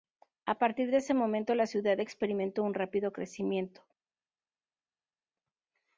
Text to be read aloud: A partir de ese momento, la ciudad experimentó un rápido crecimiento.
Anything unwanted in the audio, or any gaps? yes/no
no